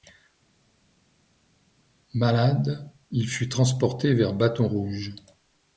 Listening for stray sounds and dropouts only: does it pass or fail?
pass